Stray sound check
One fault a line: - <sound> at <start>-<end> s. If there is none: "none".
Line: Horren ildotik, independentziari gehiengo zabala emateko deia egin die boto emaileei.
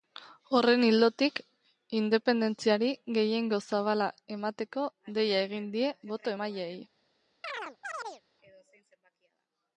- chirp at 7.4-8.2 s